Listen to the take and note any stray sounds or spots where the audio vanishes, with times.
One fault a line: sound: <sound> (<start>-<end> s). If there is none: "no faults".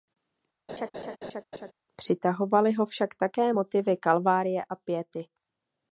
sound: laugh (0.7-1.7 s)